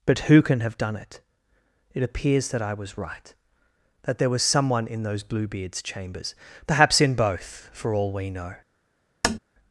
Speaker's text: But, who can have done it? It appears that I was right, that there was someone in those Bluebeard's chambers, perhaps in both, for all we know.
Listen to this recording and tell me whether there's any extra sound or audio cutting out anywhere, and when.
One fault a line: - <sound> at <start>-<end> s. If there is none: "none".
- tap at 9.2-9.4 s